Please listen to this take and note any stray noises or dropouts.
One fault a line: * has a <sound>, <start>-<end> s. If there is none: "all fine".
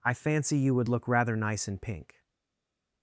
all fine